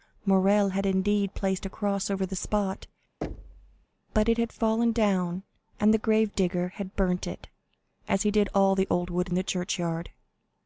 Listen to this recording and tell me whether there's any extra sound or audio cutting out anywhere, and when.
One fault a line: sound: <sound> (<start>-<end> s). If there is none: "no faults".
sound: thud (3.2-3.9 s)